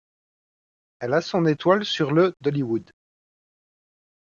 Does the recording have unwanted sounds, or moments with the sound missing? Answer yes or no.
no